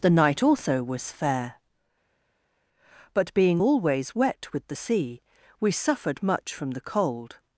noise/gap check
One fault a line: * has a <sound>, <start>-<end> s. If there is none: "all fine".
all fine